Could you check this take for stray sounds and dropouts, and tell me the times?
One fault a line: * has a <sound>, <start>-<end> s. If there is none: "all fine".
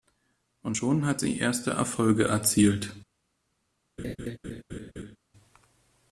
* has a laugh, 4.0-5.2 s